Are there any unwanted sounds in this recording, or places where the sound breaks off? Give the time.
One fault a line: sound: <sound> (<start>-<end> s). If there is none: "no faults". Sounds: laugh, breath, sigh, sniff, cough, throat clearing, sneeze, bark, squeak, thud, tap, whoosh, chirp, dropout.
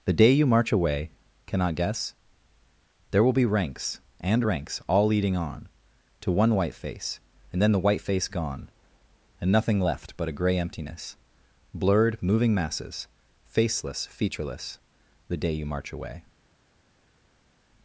no faults